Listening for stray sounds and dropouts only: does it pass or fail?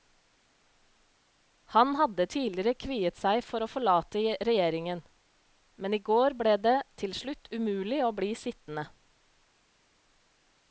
pass